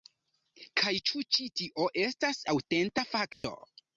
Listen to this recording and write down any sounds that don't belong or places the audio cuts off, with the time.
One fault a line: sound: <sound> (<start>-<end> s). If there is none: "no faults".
sound: dropout (3.3-3.4 s)